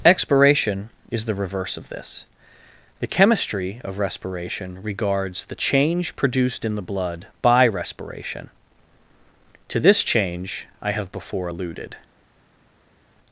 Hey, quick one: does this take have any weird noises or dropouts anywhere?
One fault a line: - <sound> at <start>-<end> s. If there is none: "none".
none